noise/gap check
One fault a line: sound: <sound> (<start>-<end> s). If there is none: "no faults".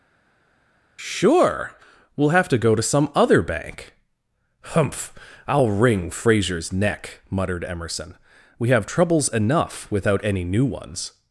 no faults